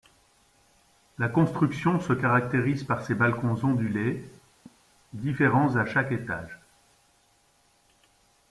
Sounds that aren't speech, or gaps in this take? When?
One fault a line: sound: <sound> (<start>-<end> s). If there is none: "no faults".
sound: laugh (4.7-4.8 s)